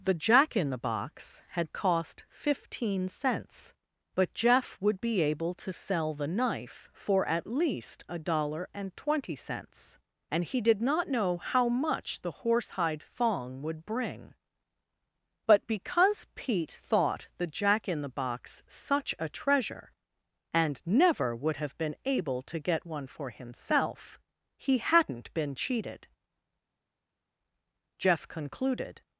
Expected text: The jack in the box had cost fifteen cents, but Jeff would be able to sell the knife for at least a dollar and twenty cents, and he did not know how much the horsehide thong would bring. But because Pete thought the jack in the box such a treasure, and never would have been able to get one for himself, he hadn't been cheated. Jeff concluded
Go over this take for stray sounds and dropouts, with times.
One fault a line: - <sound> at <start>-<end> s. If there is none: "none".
none